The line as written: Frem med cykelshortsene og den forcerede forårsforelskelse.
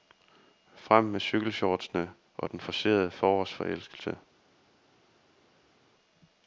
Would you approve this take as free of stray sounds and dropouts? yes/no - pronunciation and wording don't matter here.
yes